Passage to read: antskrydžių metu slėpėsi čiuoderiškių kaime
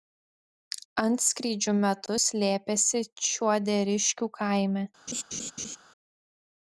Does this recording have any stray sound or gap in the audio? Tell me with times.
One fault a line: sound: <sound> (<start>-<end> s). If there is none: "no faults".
sound: laugh (5.1-5.8 s)